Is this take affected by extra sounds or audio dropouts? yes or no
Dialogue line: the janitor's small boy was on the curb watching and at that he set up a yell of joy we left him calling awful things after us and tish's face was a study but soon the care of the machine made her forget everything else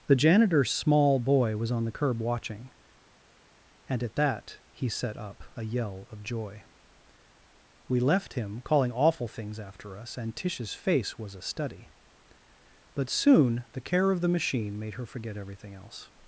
no